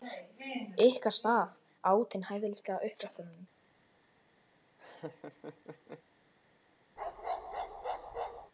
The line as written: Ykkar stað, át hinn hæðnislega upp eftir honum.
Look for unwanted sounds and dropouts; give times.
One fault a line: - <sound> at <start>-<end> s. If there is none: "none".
- laugh at 4.8-6.0 s
- bark at 7.0-8.5 s